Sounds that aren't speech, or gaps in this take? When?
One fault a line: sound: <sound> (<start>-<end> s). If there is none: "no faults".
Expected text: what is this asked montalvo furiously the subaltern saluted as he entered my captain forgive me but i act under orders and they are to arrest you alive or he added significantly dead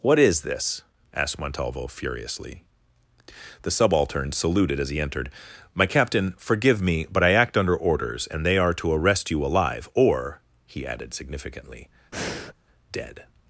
sound: breath (12.1-12.5 s)